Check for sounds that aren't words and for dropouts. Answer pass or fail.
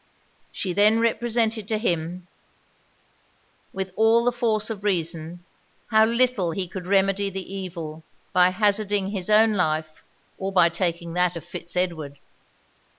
pass